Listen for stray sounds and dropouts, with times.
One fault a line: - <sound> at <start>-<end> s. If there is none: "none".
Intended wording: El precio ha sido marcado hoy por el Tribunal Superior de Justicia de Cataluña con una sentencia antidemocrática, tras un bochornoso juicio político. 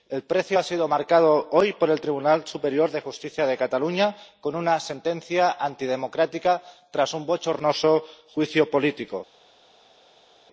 none